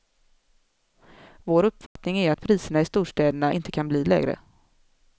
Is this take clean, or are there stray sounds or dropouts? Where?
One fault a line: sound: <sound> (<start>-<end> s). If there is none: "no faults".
sound: dropout (1.9-2.0 s)